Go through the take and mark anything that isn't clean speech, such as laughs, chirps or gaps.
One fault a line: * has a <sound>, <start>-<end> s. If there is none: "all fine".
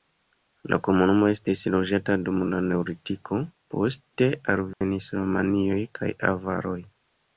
* has a dropout, 4.7-4.8 s